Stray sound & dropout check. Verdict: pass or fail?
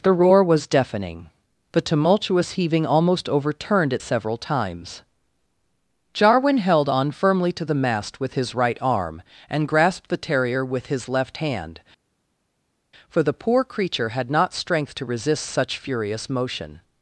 pass